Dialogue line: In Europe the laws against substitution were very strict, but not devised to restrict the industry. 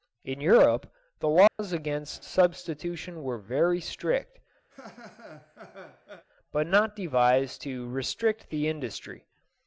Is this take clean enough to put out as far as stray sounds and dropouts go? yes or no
no